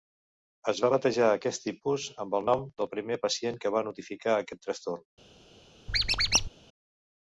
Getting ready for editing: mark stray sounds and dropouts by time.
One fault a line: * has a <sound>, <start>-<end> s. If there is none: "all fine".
* has a squeak, 5.9-6.5 s